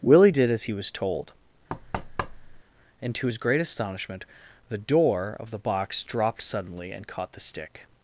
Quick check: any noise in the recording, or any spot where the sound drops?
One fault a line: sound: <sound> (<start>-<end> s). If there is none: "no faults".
sound: thud (1.7-2.6 s)